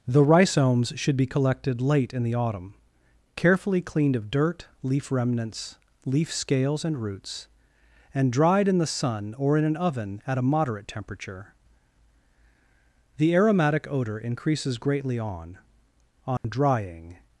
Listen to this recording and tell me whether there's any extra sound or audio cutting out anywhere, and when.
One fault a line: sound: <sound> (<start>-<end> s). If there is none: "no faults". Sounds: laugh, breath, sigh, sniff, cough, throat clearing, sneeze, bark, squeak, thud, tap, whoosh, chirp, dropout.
sound: dropout (16.4-16.4 s)